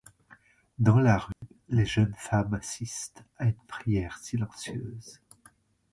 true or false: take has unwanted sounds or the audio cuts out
true